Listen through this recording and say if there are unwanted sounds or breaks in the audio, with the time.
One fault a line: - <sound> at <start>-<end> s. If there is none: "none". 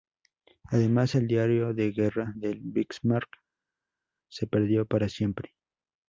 none